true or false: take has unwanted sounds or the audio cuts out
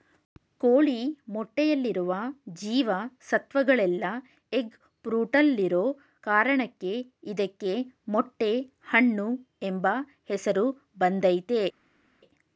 false